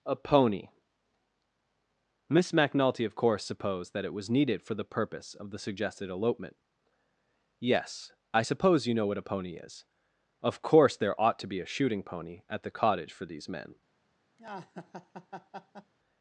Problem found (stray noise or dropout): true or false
true